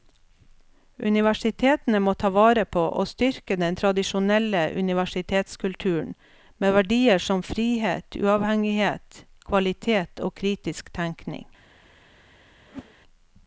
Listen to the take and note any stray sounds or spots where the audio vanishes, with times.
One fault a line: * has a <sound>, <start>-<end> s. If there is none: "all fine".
* has a whoosh, 12.7-12.9 s